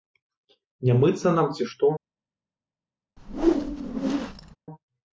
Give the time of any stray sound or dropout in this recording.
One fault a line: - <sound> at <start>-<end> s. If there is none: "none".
- whoosh at 3.2-4.6 s